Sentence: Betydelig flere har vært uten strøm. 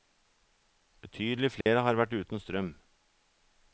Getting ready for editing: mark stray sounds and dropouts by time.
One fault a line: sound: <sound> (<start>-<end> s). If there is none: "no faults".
sound: dropout (1.6-1.7 s)